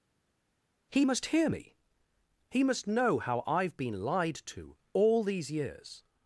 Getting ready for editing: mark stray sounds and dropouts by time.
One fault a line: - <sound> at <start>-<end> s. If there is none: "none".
none